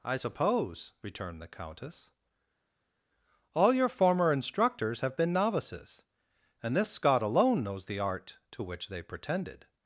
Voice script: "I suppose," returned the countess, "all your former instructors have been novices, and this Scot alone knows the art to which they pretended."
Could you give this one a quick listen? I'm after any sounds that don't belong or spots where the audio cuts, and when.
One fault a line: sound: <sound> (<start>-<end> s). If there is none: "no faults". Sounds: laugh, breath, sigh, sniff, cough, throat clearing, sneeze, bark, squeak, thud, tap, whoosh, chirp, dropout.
no faults